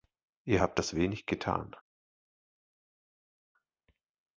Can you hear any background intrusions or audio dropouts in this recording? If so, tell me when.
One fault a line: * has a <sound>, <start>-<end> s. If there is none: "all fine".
all fine